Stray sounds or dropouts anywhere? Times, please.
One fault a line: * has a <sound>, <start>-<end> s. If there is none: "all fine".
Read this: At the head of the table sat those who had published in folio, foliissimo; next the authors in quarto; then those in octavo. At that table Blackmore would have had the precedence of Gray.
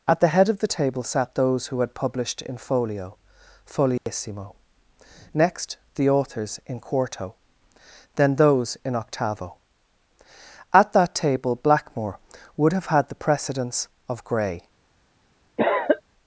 * has a dropout, 4.0-4.1 s
* has a cough, 15.6-16.0 s